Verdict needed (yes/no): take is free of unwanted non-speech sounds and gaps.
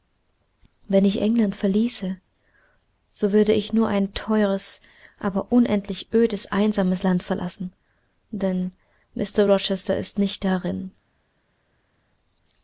yes